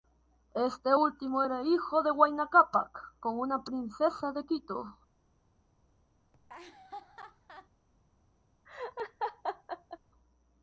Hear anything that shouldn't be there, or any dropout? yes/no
yes